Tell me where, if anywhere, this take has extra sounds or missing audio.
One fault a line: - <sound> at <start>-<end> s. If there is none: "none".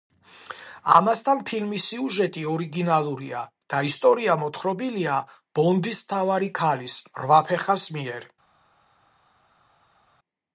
none